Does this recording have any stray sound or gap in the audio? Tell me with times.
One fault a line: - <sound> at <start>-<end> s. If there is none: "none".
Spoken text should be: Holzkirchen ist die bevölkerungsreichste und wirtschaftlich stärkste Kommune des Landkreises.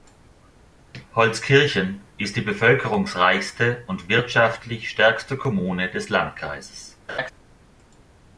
- laugh at 7.1-7.3 s